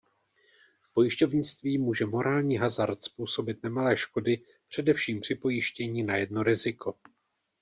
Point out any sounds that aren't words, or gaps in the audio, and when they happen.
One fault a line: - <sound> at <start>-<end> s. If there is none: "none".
none